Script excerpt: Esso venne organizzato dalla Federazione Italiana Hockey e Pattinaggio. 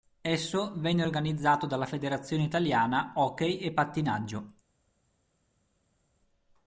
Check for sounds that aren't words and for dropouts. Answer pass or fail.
pass